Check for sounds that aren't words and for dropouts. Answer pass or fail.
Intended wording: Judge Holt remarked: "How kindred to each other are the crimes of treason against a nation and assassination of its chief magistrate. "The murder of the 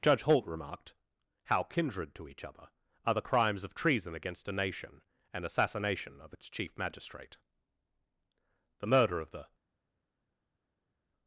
pass